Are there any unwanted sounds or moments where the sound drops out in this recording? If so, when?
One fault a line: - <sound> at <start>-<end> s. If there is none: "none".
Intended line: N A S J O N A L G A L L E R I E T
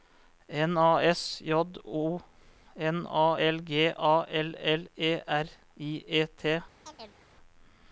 - chirp at 6.9-7.3 s